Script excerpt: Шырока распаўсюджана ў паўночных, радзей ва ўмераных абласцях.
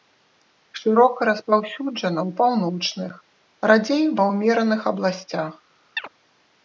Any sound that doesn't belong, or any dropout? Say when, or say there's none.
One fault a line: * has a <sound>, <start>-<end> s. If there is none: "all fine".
* has a chirp, 6.0-6.1 s